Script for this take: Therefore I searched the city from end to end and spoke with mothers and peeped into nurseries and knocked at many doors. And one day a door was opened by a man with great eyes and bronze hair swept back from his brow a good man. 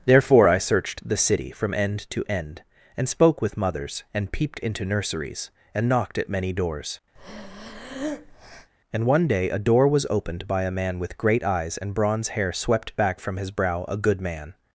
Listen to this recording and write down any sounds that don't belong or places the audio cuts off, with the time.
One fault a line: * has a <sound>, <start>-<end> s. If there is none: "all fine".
* has a breath, 7.2-8.7 s